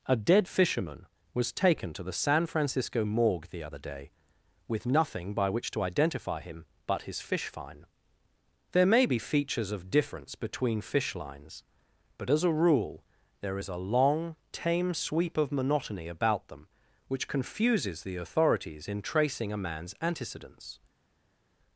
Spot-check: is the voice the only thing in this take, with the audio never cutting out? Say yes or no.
yes